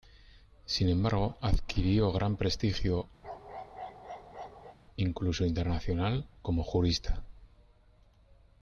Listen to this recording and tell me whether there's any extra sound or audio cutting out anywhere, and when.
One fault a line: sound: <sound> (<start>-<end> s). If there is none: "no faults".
sound: bark (3.2-4.8 s)